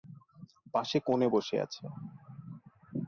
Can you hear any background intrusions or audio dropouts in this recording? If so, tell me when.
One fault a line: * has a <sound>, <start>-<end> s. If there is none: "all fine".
all fine